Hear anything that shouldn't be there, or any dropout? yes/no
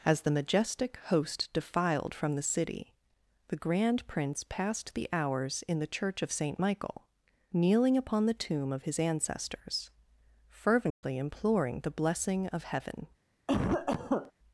yes